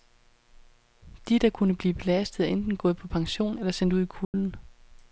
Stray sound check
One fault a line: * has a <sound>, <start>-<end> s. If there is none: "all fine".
* has a dropout, 4.2-4.3 s